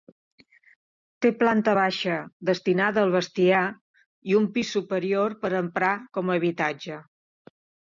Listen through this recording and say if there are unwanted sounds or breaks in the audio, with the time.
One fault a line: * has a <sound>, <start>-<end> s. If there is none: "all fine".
all fine